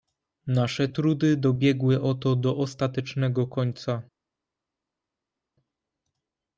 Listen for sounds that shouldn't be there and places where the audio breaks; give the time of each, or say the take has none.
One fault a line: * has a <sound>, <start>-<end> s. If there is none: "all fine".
all fine